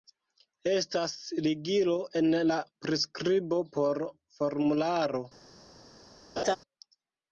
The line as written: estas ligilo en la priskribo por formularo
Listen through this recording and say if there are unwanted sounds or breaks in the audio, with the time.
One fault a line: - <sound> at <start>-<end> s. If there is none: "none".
- laugh at 6.4-6.6 s